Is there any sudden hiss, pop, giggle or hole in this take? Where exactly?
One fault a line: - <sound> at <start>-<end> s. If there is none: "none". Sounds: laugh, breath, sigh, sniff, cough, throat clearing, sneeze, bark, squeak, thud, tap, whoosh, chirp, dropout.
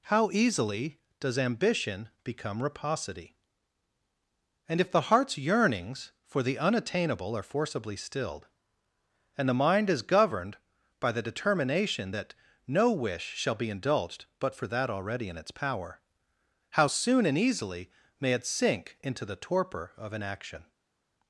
none